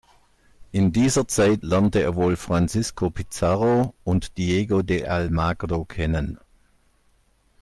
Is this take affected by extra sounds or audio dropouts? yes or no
no